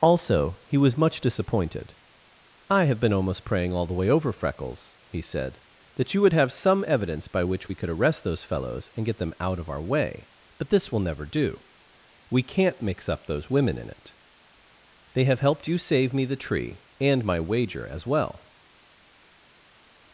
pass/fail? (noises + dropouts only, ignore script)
pass